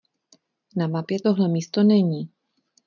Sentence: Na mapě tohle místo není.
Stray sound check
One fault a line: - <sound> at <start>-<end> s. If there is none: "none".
none